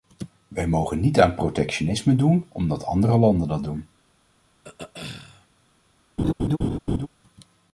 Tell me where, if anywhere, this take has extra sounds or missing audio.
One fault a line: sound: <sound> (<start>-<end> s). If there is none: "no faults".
sound: throat clearing (4.6-5.5 s)
sound: laugh (6.2-7.1 s)